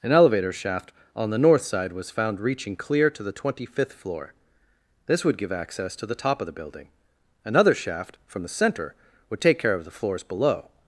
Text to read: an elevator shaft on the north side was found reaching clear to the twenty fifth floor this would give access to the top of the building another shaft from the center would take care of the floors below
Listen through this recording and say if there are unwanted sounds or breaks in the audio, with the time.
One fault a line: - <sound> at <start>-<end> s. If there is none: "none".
none